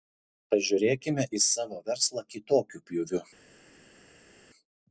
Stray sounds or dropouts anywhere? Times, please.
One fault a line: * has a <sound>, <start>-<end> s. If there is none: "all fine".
all fine